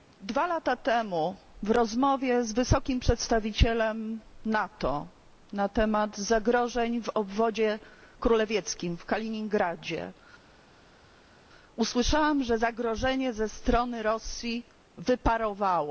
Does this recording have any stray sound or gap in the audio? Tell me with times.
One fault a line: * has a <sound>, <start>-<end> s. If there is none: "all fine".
all fine